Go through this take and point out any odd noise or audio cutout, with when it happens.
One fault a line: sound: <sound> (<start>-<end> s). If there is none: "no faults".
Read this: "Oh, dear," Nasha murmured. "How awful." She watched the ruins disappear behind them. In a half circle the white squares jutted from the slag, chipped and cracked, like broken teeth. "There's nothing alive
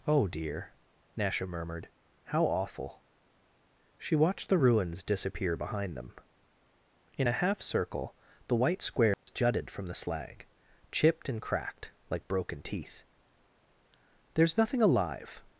sound: dropout (9.1-9.3 s)